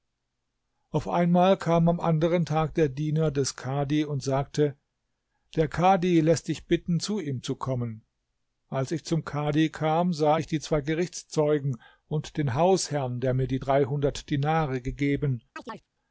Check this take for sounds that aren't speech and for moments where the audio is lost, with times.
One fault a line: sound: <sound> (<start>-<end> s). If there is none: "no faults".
sound: chirp (15.6-15.9 s)